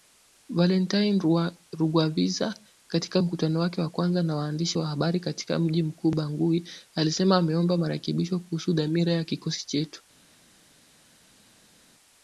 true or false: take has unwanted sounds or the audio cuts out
false